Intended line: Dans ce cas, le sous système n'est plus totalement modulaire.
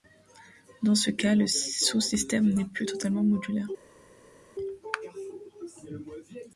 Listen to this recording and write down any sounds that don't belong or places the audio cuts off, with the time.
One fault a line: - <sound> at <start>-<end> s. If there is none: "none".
none